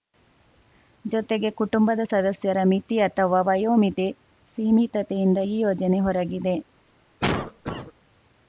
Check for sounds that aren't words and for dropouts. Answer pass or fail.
fail